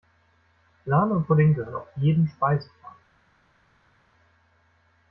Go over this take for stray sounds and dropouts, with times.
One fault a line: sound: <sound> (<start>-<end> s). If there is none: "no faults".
no faults